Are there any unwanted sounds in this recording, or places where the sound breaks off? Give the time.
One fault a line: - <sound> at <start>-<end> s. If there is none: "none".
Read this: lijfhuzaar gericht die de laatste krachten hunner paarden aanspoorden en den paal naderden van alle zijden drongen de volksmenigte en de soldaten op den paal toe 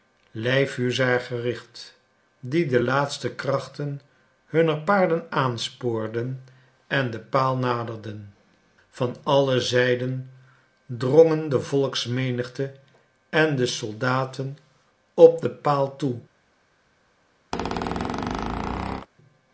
- squeak at 17.5-19.1 s